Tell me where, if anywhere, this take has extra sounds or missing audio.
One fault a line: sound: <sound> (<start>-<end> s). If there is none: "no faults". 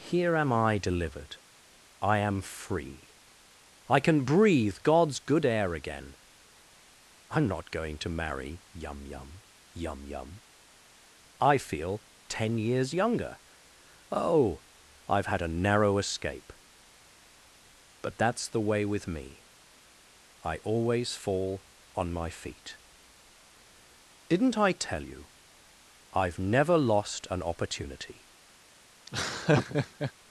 sound: laugh (29.1-30.1 s)